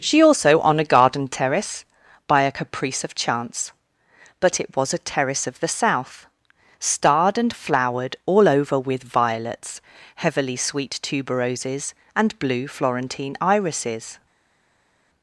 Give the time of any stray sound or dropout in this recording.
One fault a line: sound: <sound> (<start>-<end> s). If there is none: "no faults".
no faults